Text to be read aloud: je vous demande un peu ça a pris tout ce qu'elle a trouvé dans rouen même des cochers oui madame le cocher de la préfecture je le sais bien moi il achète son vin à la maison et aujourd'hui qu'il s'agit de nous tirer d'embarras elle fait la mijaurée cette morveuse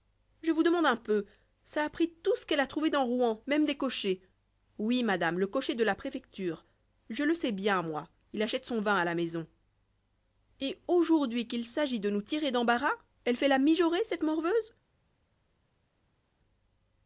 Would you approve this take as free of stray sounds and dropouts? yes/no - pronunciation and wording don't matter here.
yes